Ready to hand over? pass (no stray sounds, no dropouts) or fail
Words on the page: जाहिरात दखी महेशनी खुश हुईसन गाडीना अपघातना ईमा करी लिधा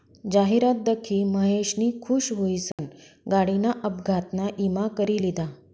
fail